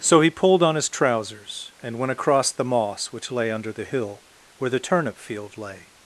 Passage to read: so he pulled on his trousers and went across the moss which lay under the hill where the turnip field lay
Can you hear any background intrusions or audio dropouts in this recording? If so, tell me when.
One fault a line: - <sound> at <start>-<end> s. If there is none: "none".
none